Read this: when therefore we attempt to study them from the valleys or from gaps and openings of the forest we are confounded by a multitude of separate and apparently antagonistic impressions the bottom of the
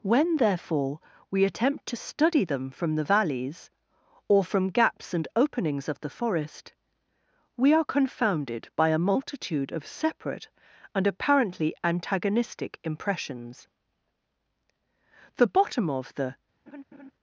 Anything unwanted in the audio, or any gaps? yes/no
yes